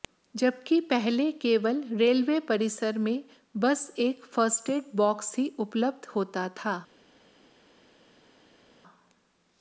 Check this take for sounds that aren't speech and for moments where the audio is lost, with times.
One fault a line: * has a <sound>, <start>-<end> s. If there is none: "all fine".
all fine